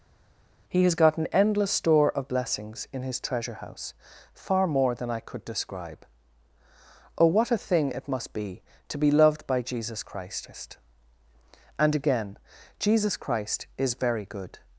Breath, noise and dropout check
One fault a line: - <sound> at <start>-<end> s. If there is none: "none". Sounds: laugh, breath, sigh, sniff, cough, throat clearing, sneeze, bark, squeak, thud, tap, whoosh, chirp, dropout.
none